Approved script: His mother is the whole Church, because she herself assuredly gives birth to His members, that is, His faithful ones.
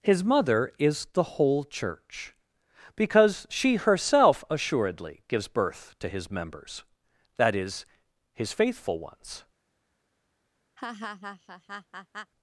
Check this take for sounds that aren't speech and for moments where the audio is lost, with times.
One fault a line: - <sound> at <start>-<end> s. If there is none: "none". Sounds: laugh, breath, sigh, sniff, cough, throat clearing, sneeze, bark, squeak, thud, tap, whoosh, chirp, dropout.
- laugh at 10.8-12.3 s